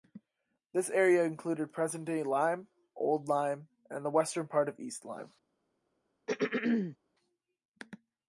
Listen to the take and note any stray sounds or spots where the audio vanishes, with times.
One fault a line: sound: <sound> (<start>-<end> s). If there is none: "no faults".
sound: throat clearing (6.3-7.0 s)